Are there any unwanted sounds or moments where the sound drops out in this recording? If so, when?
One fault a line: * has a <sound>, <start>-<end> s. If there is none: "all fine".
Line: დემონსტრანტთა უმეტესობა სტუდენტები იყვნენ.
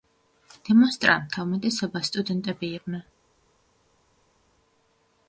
all fine